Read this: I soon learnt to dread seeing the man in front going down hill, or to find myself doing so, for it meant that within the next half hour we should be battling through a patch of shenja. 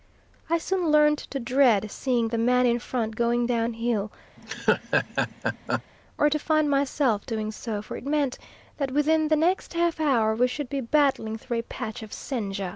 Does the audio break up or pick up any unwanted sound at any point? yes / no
yes